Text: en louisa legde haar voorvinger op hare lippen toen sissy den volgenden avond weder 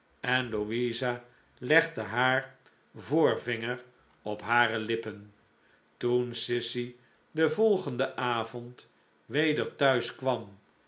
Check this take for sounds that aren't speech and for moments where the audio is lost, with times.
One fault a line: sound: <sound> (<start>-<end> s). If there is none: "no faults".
no faults